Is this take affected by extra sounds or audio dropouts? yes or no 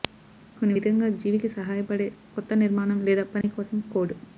yes